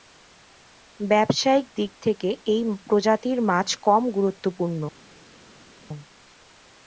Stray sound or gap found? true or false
false